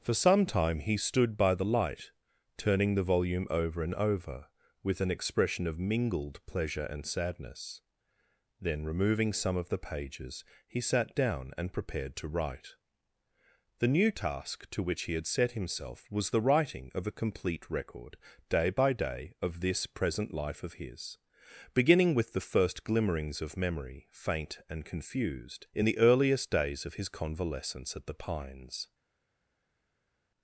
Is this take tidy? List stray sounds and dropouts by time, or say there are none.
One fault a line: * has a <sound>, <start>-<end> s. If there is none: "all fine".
all fine